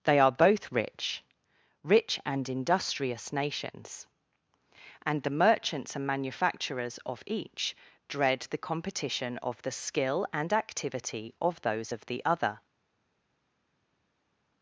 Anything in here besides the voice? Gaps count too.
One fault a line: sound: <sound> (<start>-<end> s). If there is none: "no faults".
no faults